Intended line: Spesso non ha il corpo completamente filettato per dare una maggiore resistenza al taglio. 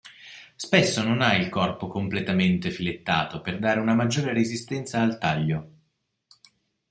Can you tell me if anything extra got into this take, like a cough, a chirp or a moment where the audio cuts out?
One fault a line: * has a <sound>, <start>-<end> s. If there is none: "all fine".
all fine